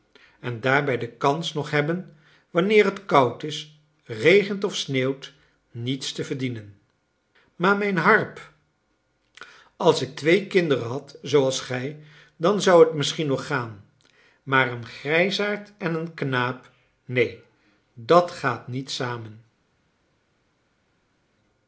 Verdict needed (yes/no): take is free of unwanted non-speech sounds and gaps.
yes